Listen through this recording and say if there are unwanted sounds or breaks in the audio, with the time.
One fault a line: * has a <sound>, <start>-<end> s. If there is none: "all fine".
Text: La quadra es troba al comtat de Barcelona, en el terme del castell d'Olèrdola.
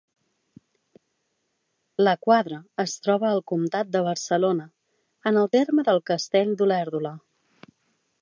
all fine